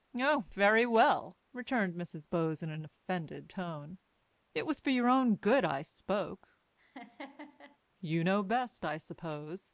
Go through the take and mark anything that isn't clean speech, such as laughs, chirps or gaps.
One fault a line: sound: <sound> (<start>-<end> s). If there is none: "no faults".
sound: laugh (6.8-7.8 s)